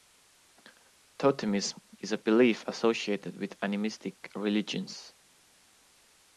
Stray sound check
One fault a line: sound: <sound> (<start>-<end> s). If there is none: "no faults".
no faults